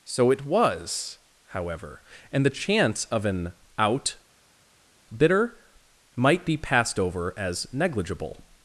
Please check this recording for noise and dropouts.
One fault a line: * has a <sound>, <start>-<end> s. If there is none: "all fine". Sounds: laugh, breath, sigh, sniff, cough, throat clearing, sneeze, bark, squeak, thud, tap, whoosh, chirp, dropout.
all fine